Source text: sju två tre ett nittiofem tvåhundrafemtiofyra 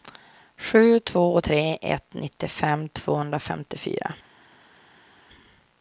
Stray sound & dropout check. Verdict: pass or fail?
pass